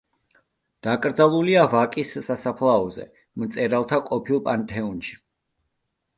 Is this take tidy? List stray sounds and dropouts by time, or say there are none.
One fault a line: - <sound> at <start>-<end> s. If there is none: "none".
none